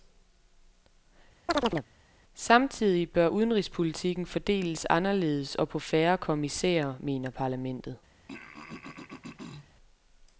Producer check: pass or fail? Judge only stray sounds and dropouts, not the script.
fail